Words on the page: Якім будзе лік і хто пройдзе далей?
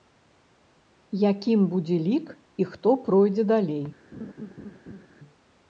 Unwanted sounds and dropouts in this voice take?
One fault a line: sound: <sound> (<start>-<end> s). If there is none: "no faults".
sound: laugh (4.1-5.1 s)